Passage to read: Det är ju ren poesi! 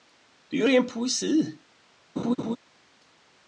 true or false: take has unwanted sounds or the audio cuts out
true